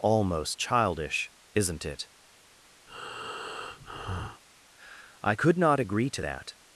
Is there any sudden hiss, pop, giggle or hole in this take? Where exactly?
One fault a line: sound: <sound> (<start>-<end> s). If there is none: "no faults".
sound: breath (2.9-4.4 s)